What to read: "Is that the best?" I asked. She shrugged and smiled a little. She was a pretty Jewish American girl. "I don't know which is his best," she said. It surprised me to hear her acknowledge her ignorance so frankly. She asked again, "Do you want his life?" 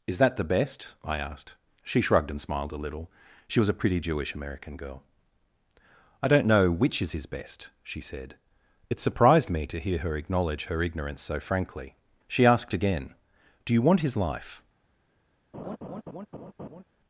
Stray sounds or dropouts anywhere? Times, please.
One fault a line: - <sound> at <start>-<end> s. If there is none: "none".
- laugh at 15.5-16.8 s